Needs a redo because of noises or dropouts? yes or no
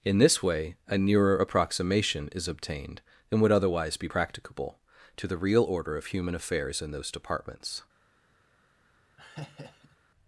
yes